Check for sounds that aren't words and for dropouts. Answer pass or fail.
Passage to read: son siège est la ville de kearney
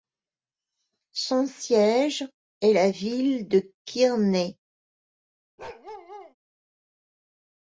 fail